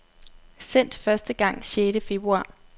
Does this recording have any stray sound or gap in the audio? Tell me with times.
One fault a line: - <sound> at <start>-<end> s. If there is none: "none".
none